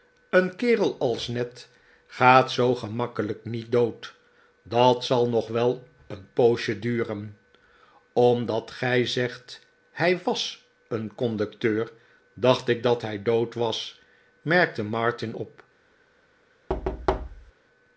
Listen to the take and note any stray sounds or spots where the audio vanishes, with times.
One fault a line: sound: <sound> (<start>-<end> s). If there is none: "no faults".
sound: thud (16.7-17.5 s)